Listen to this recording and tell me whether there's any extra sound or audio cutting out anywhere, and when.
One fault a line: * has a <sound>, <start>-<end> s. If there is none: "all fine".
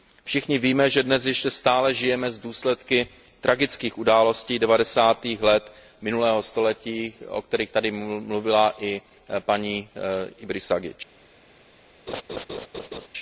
* has a laugh, 12.1-13.1 s